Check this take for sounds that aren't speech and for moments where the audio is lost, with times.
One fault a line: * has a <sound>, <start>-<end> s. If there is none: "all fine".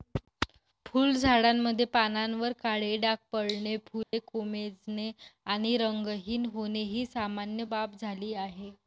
* has a dropout, 4.0-4.1 s